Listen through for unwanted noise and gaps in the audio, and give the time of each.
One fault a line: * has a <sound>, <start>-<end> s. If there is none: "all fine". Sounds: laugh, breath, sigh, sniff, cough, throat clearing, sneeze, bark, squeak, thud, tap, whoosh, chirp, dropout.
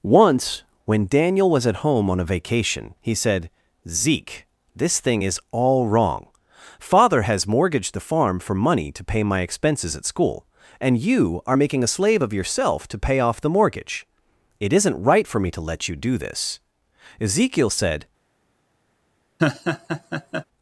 * has a laugh, 19.4-20.4 s